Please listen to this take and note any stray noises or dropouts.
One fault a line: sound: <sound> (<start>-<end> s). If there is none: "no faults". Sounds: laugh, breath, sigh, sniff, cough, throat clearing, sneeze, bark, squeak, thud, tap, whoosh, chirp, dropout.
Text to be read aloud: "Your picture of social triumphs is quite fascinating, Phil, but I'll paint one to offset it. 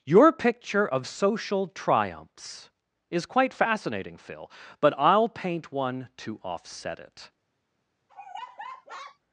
sound: laugh (8.1-9.2 s)